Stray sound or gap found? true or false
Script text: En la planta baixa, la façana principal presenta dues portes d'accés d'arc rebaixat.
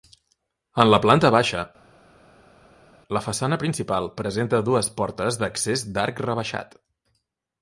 false